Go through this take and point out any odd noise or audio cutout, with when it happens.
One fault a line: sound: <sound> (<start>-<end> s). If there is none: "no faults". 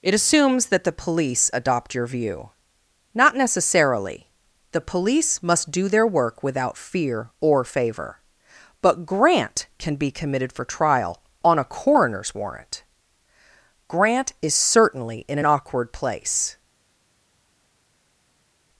no faults